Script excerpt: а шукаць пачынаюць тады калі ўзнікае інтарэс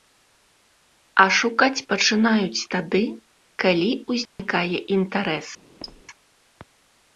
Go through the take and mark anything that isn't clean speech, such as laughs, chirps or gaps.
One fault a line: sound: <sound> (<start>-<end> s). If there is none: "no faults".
sound: dropout (4.3-4.4 s)
sound: squeak (5.8-6.0 s)